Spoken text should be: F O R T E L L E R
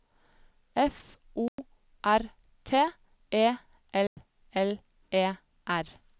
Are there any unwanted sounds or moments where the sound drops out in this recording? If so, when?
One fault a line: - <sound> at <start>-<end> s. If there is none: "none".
- dropout at 1.5-1.6 s
- dropout at 4.1-4.2 s